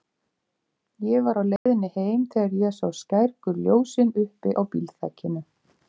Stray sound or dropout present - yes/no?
yes